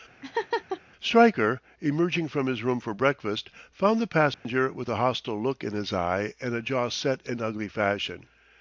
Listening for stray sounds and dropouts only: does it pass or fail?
fail